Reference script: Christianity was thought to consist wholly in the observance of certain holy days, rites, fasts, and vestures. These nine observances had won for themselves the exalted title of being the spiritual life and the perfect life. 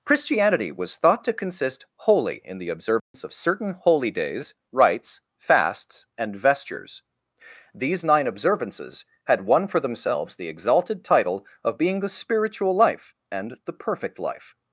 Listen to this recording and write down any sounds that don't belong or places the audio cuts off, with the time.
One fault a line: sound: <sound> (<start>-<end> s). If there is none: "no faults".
sound: dropout (3.0-3.1 s)